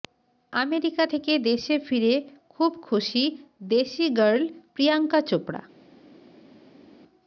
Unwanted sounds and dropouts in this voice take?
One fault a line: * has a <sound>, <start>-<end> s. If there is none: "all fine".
all fine